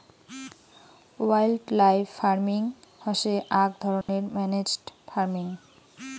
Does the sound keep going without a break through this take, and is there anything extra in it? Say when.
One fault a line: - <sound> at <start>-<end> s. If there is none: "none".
- dropout at 4.0-4.1 s